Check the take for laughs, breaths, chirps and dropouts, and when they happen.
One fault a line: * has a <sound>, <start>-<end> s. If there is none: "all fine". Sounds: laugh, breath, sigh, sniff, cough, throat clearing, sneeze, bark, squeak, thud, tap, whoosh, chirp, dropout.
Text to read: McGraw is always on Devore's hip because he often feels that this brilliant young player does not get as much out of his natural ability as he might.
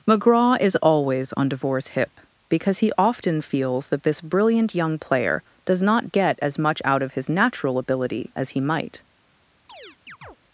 * has a chirp, 9.7-10.4 s